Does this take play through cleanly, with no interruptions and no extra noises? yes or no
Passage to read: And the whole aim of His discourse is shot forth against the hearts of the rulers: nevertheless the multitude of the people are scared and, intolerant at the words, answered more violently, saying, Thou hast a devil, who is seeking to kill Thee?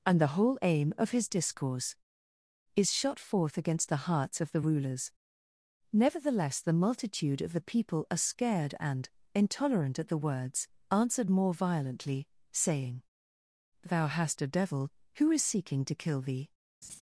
no